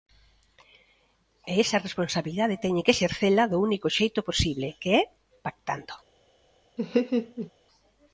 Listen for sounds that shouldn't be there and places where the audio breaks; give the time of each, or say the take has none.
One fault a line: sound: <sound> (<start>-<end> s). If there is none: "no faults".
sound: laugh (6.8-7.5 s)